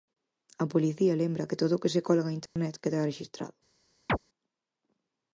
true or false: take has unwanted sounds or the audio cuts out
true